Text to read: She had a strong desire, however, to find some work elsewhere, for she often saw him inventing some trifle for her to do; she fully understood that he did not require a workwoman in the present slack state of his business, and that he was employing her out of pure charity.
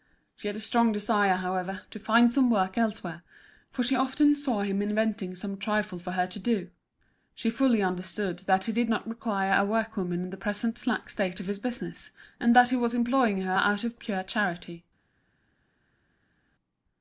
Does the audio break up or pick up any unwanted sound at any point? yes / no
no